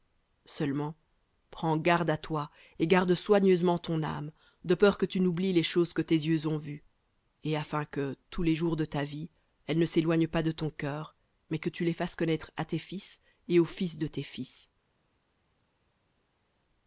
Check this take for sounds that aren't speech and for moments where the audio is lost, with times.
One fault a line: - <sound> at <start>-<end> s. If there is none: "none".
none